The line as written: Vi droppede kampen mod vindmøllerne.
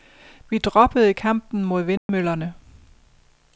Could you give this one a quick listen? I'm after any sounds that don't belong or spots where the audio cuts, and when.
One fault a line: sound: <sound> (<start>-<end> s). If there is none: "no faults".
sound: dropout (2.0-2.1 s)